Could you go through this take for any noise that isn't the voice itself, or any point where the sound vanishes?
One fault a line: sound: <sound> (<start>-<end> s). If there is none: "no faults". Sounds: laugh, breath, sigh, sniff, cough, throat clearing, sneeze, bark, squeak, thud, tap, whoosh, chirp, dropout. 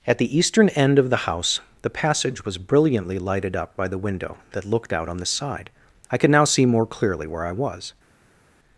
no faults